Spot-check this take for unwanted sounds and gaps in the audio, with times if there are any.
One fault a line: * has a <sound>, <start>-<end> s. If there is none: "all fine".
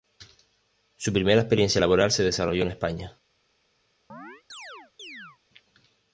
* has a chirp, 4.1-5.4 s